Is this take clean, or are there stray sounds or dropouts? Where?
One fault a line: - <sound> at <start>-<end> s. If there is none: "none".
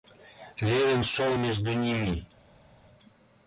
none